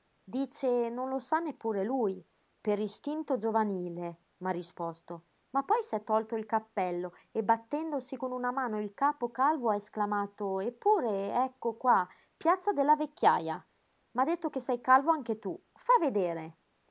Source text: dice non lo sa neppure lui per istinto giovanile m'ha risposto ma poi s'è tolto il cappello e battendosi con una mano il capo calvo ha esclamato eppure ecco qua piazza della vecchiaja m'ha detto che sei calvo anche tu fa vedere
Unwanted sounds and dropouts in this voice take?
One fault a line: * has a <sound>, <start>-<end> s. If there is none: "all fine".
all fine